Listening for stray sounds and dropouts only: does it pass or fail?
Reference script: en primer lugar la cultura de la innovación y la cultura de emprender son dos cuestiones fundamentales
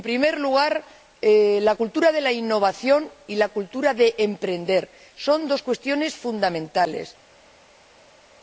pass